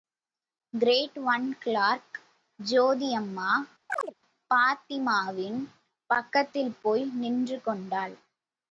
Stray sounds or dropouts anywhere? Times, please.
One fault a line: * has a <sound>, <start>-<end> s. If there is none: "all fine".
* has a chirp, 3.9-4.1 s